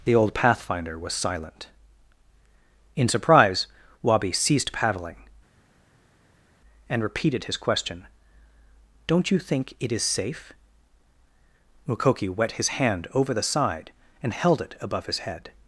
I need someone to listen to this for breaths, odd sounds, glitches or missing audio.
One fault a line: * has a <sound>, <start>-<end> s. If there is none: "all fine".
all fine